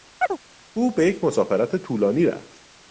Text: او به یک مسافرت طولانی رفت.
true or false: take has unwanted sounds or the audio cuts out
true